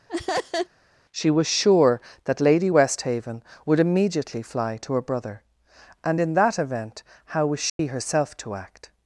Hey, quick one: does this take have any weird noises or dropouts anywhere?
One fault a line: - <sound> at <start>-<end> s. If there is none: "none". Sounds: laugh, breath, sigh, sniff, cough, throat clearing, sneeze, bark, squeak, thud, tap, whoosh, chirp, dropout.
- laugh at 0.1-0.7 s
- dropout at 7.7-7.8 s